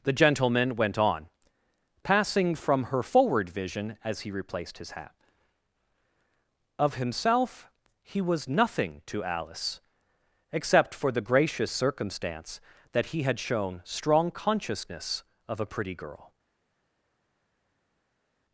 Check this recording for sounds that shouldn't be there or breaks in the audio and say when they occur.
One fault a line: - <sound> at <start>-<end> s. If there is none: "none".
none